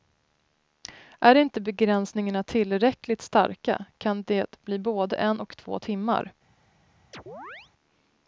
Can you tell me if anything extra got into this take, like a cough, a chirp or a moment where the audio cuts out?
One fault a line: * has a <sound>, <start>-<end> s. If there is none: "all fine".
* has a chirp, 7.1-7.7 s